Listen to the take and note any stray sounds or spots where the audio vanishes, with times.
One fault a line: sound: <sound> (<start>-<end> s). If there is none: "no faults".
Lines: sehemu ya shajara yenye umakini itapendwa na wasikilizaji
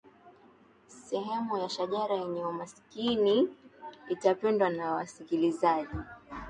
no faults